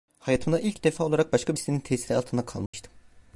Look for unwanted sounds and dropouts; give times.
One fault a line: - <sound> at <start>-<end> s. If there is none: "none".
- dropout at 2.7-2.7 s